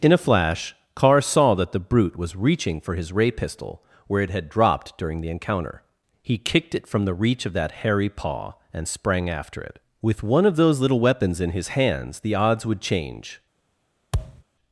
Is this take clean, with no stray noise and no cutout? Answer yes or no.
no